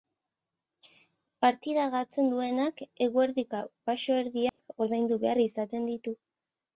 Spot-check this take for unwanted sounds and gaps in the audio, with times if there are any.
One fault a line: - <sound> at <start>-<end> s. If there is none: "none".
- dropout at 4.5-4.6 s